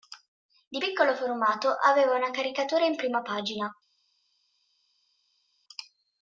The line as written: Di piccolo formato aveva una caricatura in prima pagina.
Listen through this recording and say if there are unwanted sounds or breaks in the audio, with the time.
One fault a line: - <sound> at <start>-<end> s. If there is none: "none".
none